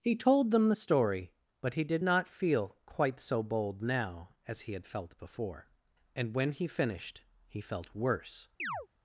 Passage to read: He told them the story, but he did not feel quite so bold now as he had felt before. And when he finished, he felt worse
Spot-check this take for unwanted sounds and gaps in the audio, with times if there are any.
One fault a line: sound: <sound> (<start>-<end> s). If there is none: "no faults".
sound: chirp (8.6-8.9 s)